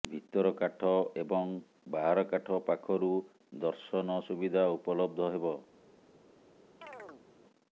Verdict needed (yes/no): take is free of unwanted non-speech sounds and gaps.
no